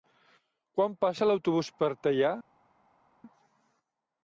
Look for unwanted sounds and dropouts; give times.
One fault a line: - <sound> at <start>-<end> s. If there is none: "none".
none